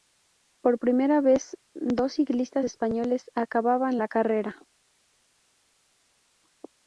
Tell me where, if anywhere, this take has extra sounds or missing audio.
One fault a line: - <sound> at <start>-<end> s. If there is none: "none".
none